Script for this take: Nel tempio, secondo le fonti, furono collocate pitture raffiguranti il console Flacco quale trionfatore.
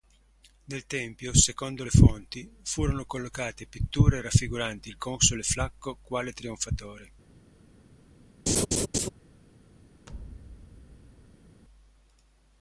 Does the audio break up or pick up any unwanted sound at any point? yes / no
yes